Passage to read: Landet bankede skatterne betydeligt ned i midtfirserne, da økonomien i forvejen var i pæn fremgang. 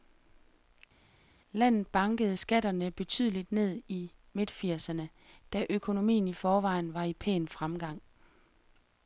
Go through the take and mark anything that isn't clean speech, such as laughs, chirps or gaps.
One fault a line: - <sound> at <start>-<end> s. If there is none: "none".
none